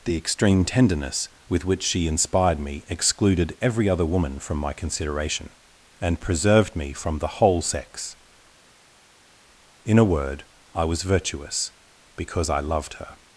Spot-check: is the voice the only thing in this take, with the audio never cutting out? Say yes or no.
yes